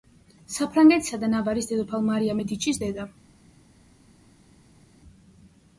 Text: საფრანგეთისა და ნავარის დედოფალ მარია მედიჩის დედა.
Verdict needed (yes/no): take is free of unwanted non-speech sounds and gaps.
yes